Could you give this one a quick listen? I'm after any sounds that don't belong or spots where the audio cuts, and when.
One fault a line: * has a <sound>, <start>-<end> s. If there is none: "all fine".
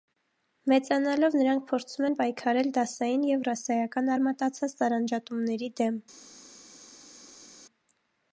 all fine